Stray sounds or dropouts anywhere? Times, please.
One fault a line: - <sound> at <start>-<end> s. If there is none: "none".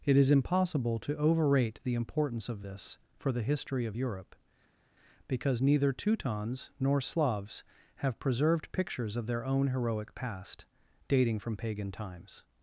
none